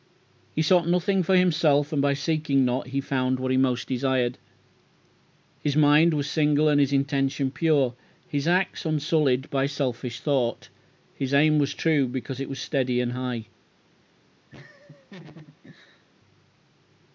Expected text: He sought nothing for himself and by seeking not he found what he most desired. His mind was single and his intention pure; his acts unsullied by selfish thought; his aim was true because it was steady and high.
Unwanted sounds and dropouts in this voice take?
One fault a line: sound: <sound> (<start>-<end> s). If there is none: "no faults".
sound: laugh (14.5-16.0 s)